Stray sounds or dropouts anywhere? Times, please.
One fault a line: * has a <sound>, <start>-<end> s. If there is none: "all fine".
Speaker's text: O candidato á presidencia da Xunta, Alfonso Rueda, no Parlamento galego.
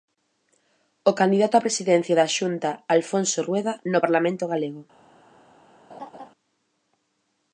* has a laugh, 5.9-6.3 s